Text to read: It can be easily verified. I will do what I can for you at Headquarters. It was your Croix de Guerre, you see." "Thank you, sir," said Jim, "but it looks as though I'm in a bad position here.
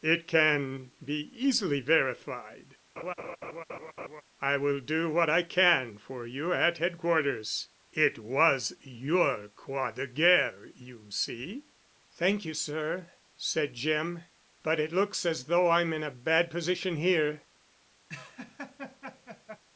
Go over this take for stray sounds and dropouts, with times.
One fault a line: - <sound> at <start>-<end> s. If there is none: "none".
- laugh at 3.0-4.2 s
- laugh at 18.1-19.6 s